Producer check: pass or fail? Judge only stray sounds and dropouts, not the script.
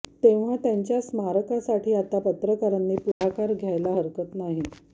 fail